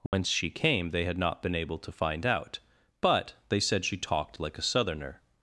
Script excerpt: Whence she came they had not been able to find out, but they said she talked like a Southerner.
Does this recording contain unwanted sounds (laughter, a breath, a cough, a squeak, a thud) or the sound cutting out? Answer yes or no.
yes